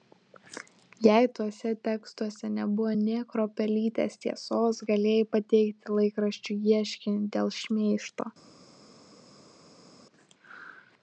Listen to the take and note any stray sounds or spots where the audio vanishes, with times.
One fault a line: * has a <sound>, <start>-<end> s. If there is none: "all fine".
all fine